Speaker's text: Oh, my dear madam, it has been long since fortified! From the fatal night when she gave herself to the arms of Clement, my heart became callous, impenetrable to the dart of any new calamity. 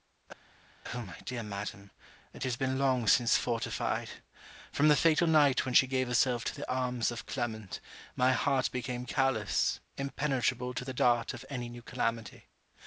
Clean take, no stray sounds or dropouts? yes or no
yes